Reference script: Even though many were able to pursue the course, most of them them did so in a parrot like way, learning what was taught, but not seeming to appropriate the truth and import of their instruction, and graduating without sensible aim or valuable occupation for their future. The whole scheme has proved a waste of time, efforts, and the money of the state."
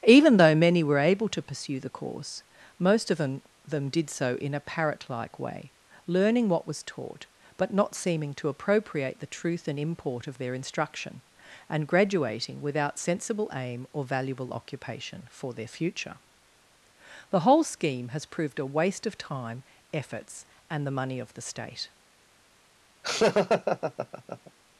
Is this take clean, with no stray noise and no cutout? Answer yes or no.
no